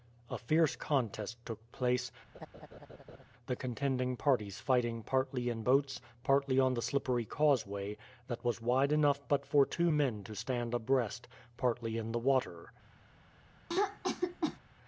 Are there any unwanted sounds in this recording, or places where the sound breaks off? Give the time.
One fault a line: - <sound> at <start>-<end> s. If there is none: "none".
- laugh at 2.3-3.2 s
- throat clearing at 13.7-14.6 s